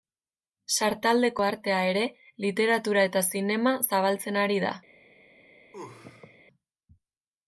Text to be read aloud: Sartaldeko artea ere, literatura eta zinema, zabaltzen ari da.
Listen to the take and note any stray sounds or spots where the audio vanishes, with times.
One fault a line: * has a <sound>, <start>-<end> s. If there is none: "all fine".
* has a sneeze, 5.7-6.4 s